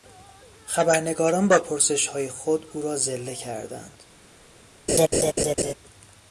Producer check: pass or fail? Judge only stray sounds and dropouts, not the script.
fail